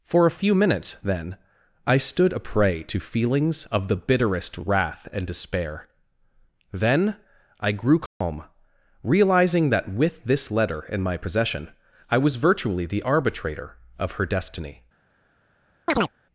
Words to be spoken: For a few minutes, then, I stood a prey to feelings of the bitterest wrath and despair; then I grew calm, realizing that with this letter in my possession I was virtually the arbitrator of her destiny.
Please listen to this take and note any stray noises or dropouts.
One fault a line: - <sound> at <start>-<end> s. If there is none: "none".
- dropout at 8.1-8.2 s
- chirp at 15.9-16.1 s